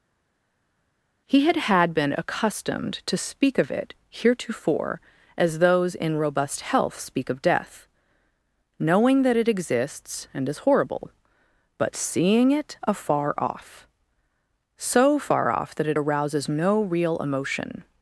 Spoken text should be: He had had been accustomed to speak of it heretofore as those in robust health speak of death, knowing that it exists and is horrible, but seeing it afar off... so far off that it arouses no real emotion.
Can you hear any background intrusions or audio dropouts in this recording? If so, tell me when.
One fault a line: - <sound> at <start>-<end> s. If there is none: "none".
none